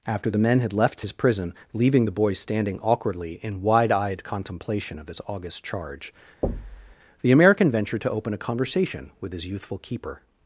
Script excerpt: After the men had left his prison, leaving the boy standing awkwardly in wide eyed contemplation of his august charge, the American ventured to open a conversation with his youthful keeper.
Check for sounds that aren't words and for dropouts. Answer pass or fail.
fail